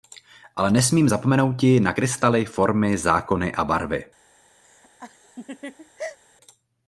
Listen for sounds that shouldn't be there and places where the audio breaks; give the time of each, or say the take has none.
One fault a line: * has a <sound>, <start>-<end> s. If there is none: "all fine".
* has a laugh, 4.6-6.2 s